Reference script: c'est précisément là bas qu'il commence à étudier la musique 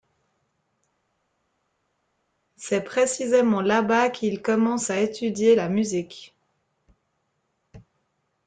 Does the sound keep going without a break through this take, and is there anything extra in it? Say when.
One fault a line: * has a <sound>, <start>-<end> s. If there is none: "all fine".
all fine